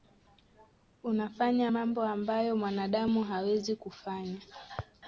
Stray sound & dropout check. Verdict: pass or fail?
pass